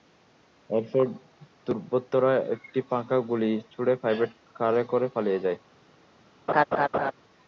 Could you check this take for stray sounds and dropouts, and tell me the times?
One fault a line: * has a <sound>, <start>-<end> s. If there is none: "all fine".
* has a laugh, 6.5-7.1 s